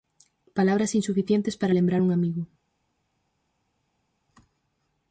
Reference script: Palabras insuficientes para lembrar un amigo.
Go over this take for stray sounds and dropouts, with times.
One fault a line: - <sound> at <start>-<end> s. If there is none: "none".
none